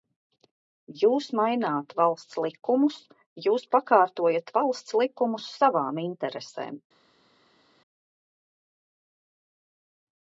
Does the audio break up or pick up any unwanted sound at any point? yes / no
no